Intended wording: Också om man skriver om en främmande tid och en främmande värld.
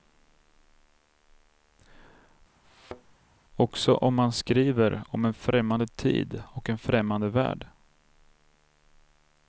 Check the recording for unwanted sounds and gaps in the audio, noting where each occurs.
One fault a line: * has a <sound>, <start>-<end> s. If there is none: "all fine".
* has a thud, 2.6-3.2 s